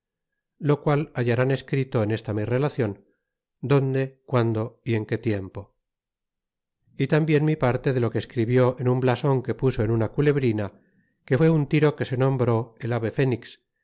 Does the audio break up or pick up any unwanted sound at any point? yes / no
no